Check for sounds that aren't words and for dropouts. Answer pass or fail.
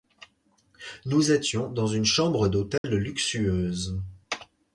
fail